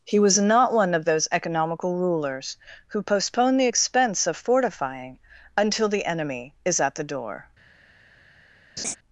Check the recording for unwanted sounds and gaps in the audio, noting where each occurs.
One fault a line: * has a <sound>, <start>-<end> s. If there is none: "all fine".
* has a laugh, 8.8-9.0 s